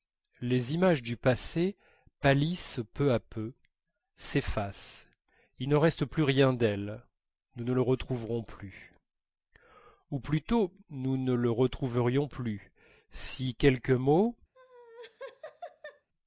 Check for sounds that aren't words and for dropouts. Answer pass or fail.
fail